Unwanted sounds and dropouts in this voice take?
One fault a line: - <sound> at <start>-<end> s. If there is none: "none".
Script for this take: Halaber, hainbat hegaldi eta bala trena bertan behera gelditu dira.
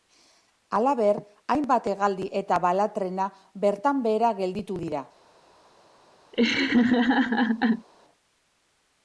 - laugh at 6.3-7.9 s